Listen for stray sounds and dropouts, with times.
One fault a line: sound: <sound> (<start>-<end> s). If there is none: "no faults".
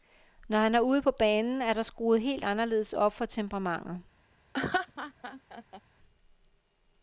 sound: laugh (4.5-5.8 s)